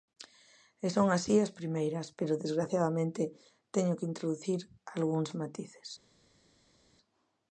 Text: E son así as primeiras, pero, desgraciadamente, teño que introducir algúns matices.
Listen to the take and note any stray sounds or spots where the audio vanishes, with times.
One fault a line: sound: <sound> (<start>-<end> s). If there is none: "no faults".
no faults